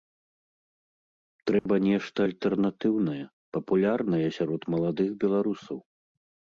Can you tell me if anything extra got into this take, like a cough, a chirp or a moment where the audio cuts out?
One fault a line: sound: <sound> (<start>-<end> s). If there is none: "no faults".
sound: dropout (1.6-1.7 s)